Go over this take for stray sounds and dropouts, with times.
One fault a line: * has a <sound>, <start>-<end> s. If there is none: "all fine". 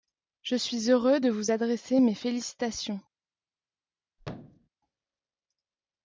* has a thud, 4.2-4.7 s